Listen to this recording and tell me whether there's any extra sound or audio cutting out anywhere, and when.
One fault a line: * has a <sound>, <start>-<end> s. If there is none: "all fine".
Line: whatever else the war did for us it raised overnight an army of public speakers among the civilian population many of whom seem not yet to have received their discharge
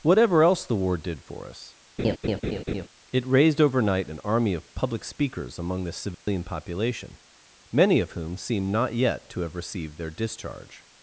* has a laugh, 2.0-2.9 s
* has a dropout, 6.1-6.3 s